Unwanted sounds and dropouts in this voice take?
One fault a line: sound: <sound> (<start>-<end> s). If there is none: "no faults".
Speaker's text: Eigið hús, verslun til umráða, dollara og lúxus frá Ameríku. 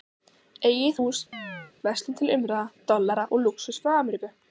sound: chirp (1.3-1.7 s)